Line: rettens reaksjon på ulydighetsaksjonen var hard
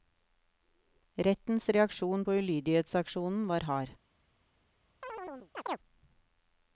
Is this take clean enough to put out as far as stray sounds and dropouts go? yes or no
no